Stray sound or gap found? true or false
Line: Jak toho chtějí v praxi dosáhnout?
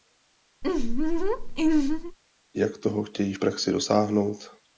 true